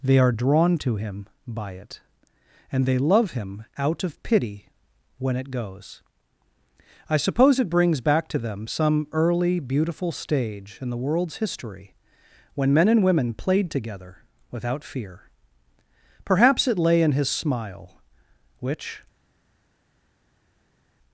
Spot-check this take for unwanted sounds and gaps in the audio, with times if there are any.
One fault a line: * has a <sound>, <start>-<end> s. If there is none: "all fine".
all fine